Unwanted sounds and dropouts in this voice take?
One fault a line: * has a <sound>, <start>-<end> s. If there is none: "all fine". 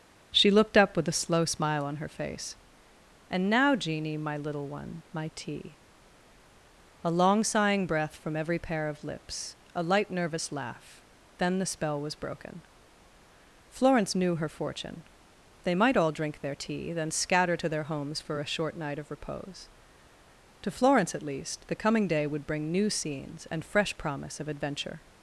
all fine